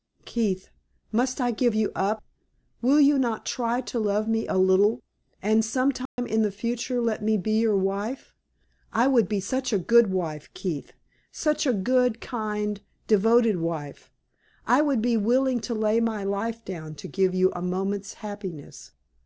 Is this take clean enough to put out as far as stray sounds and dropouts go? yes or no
no